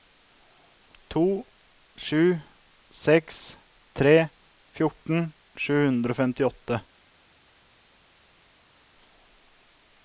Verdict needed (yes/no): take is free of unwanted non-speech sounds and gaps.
yes